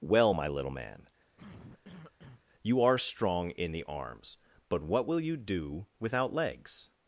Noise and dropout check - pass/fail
fail